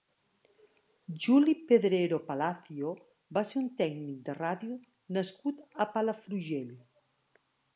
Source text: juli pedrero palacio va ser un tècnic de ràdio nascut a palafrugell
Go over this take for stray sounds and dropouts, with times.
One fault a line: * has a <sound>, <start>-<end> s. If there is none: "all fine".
all fine